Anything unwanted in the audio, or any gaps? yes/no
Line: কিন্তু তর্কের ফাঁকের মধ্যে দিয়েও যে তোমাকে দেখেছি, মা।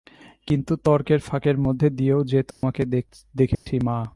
yes